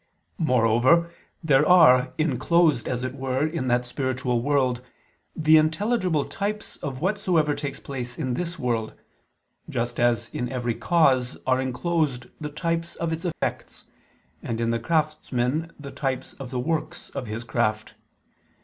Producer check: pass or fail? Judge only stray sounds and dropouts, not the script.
fail